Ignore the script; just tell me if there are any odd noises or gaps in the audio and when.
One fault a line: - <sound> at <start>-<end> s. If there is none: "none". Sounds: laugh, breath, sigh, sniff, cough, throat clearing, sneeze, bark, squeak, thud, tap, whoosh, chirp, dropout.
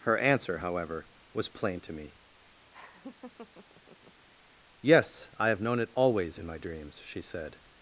- laugh at 2.7-4.3 s